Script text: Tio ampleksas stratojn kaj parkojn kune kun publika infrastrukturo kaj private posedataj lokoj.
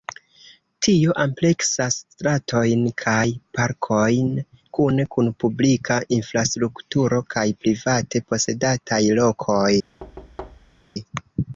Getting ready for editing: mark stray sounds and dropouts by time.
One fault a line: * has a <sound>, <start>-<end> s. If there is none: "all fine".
* has a thud, 10.0-10.8 s